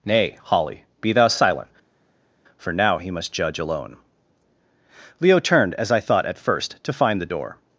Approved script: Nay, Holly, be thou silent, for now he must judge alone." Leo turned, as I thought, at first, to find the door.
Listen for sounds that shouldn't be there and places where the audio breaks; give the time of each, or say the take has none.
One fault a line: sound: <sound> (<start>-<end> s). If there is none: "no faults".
no faults